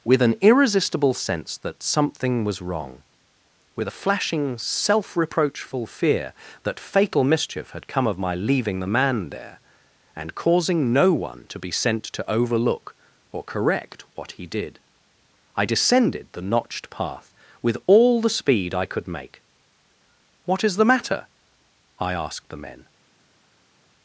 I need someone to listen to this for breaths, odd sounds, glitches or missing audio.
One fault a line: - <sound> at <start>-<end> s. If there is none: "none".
none